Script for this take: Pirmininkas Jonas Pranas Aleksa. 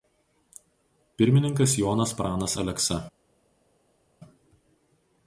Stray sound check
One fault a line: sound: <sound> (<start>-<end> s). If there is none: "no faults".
no faults